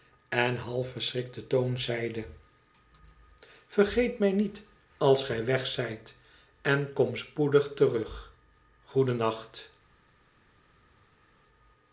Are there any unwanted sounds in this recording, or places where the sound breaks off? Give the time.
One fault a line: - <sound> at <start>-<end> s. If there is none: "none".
none